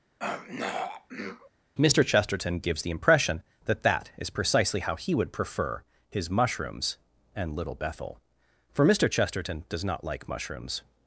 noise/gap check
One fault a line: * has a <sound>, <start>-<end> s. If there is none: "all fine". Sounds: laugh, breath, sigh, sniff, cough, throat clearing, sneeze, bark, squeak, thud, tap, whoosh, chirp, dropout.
* has a throat clearing, 0.2-1.5 s